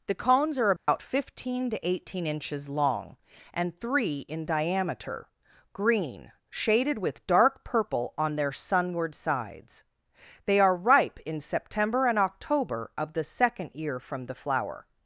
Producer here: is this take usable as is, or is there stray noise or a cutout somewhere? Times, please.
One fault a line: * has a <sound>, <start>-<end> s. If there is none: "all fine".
* has a dropout, 0.8-0.9 s